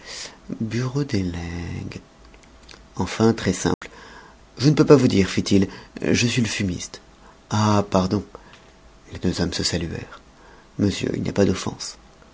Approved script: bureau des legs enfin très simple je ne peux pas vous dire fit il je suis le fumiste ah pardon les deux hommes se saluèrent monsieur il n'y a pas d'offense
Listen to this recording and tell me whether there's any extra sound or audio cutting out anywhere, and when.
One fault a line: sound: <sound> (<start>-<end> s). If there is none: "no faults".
sound: dropout (3.7-3.8 s)